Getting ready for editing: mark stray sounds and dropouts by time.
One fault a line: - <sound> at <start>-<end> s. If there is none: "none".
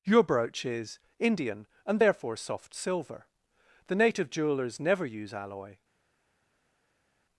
none